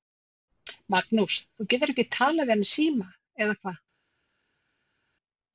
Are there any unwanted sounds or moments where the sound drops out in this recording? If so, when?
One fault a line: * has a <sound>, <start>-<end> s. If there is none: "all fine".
all fine